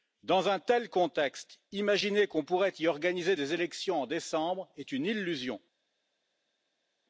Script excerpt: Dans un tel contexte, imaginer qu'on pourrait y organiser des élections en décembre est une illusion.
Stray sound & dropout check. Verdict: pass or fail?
pass